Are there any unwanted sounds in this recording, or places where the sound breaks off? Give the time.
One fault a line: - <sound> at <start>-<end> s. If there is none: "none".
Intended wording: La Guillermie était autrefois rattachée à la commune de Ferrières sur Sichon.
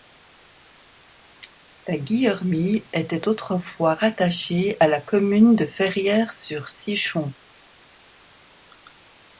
none